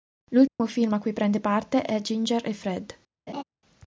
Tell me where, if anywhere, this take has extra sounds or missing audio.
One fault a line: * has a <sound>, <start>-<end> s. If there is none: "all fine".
* has a dropout, 0.5-0.6 s
* has a laugh, 3.3-3.4 s